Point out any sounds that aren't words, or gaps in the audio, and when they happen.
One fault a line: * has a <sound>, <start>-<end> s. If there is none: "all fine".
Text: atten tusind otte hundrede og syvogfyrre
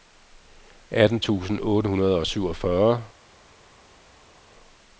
all fine